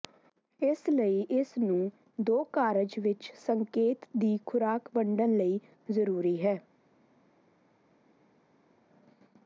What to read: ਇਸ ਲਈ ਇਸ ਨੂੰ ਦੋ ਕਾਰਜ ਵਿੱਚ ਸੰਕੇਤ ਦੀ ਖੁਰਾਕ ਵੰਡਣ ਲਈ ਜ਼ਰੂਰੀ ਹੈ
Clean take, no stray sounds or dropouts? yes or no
yes